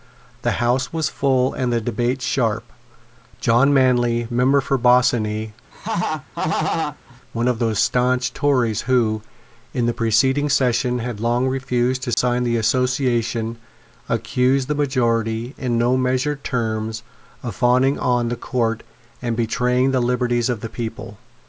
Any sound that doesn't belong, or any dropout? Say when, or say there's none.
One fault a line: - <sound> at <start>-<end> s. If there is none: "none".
- laugh at 5.7-7.2 s
- dropout at 12.1-12.2 s